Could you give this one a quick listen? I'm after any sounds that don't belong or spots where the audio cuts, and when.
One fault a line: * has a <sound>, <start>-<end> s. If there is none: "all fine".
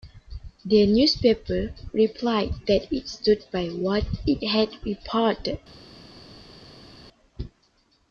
all fine